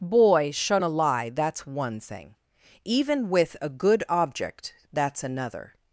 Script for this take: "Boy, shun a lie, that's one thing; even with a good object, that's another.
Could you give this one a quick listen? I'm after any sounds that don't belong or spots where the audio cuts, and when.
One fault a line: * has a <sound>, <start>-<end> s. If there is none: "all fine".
all fine